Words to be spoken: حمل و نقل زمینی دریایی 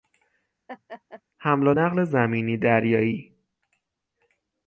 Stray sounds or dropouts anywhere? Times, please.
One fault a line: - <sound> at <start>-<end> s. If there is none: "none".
- laugh at 0.7-1.2 s